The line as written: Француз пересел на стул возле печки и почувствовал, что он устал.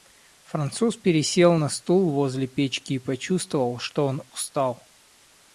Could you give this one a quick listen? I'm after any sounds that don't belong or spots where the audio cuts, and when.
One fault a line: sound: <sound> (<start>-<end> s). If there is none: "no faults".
no faults